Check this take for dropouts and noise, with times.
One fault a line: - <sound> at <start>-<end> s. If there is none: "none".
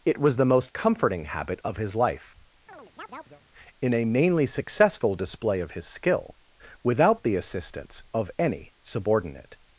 - chirp at 2.7-3.4 s